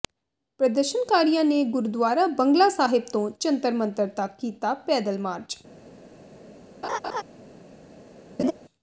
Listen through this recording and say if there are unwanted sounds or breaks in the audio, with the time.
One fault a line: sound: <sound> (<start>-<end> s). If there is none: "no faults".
sound: laugh (6.8-7.2 s)
sound: laugh (8.4-8.5 s)